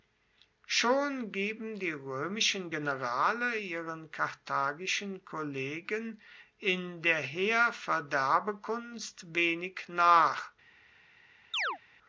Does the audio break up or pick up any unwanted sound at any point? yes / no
yes